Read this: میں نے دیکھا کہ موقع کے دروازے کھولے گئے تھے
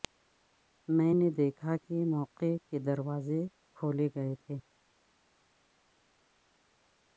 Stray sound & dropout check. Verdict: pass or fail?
pass